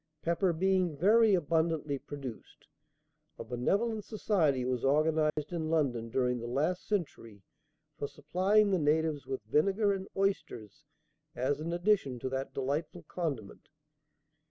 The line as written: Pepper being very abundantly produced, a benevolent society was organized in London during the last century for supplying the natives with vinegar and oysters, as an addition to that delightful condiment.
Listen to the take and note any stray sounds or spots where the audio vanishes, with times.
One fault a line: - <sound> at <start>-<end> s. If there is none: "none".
- dropout at 5.3-5.4 s